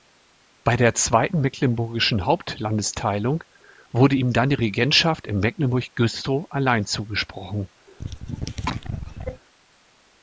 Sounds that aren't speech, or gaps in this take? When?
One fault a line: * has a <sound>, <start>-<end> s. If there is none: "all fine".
* has a cough, 7.9-9.4 s